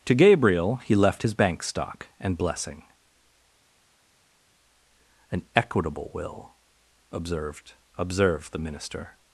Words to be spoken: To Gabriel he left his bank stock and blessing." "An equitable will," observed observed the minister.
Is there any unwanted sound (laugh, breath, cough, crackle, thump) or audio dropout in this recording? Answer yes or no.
no